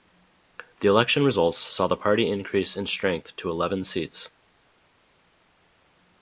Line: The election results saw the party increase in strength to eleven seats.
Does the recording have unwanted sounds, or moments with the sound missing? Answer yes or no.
no